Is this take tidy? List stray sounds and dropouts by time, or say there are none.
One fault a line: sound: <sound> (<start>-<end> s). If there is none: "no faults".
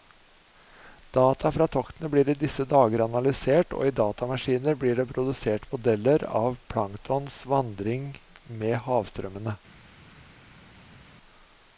no faults